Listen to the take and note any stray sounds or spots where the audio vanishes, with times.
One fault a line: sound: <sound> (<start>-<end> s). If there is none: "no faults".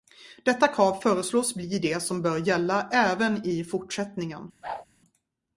sound: whoosh (4.6-4.9 s)